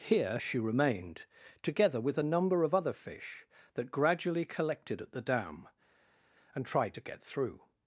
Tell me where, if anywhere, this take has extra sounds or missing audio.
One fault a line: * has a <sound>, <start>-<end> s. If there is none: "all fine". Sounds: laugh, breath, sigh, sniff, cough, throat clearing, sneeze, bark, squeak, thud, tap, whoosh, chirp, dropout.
all fine